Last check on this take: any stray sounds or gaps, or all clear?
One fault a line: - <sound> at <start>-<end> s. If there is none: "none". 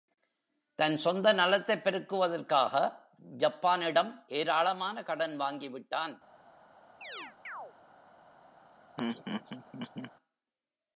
- chirp at 7.0-7.7 s
- laugh at 9.0-10.1 s